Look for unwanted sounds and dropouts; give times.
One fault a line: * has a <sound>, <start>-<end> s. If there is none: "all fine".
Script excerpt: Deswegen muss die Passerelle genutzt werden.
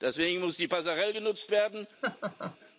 * has a laugh, 2.0-2.6 s